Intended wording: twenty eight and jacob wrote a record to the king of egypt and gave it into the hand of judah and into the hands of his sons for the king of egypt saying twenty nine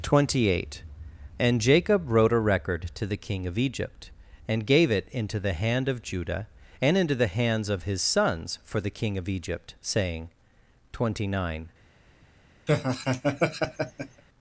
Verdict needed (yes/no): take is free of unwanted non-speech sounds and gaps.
no